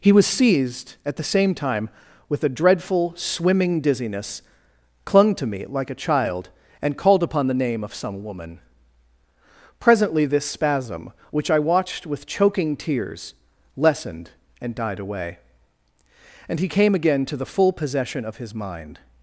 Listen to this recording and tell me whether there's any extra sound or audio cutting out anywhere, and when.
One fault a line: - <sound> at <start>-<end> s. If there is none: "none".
none